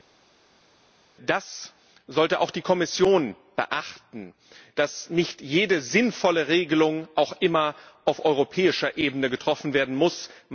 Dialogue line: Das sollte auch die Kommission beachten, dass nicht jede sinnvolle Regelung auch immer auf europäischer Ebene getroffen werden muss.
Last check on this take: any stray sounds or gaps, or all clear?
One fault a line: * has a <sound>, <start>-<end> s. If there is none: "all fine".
all fine